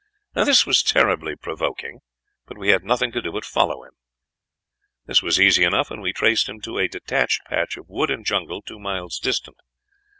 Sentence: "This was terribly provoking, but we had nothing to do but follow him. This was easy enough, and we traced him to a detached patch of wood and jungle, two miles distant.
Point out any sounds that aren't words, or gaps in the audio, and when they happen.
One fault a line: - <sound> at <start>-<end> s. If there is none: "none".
none